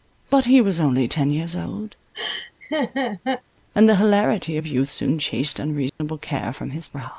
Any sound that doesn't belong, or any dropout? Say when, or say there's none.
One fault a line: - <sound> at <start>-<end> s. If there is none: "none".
- laugh at 2.1-3.4 s
- dropout at 5.9-6.0 s